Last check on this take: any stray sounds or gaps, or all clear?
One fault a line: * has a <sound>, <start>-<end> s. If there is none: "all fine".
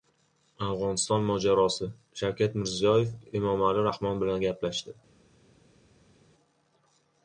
all fine